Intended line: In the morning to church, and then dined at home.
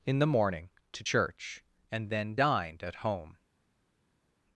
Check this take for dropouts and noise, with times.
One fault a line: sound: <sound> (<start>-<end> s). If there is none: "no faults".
no faults